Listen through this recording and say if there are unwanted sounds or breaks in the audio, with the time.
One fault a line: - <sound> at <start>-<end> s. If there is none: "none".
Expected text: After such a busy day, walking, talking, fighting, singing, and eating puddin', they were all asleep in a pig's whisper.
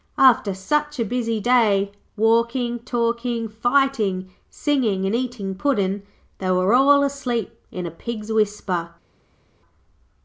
none